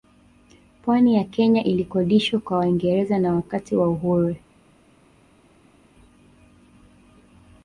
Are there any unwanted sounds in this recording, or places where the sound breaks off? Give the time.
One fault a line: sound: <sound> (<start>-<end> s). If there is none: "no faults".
no faults